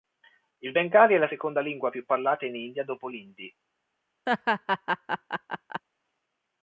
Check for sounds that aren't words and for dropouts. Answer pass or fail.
fail